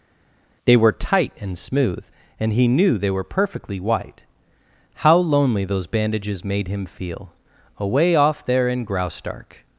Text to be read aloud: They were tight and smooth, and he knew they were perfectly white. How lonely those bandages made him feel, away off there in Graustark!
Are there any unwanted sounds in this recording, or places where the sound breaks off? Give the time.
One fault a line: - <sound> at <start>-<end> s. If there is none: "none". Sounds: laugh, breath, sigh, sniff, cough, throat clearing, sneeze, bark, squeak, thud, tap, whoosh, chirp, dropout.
none